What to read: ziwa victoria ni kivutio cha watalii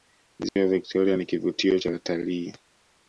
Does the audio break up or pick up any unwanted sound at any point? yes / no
yes